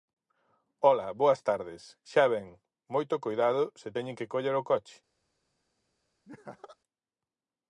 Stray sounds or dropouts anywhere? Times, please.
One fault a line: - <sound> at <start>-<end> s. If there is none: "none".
- laugh at 6.2-6.8 s